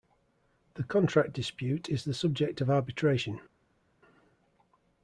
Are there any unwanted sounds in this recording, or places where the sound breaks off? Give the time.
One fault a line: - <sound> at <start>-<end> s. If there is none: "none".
none